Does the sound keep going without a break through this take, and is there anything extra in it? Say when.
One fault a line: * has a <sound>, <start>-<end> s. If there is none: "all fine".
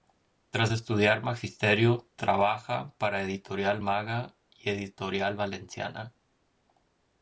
all fine